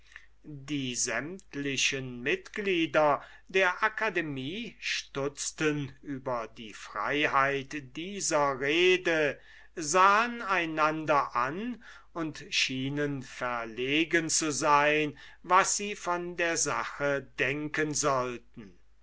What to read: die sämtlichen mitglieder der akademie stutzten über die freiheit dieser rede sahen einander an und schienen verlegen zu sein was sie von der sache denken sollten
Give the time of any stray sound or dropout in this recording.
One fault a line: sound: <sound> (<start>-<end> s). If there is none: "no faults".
no faults